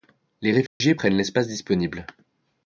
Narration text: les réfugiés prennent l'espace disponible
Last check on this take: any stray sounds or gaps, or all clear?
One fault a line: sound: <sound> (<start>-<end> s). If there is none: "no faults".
sound: dropout (0.7-0.8 s)